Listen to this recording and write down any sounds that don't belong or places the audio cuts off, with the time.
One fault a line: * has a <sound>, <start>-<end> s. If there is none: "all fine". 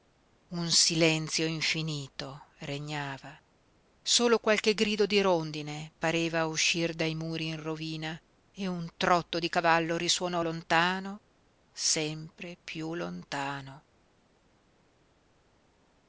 all fine